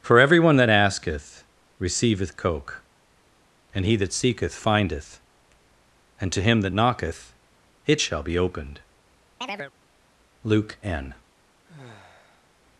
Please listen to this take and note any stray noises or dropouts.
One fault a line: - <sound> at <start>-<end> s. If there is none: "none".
- chirp at 9.4-9.7 s
- sigh at 11.6-12.5 s